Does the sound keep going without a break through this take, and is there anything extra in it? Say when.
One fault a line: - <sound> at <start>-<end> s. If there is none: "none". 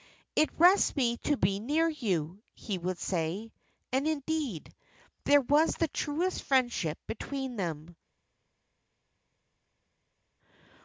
none